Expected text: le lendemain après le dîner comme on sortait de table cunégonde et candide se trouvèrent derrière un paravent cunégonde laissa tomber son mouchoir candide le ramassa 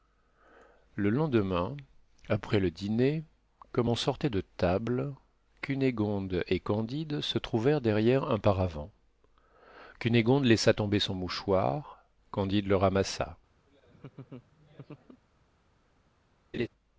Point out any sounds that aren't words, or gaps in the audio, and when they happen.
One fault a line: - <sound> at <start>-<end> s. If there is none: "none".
- laugh at 13.7-15.2 s
- laugh at 16.5-16.7 s